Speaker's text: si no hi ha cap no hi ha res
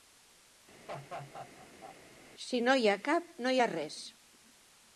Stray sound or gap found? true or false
true